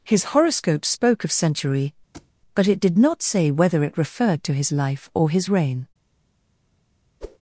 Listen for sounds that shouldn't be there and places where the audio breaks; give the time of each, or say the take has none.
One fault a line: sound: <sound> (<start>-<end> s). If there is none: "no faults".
sound: thud (2.1-2.3 s)
sound: whoosh (7.2-7.4 s)